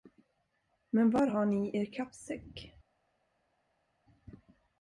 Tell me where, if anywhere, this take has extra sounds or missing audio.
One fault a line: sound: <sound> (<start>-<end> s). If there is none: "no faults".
no faults